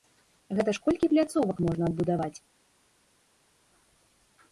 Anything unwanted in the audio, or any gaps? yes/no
no